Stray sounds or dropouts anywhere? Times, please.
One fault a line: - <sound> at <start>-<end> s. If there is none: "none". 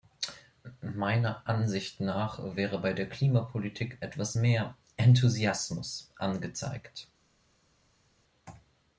none